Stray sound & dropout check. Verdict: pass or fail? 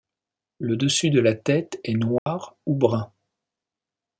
fail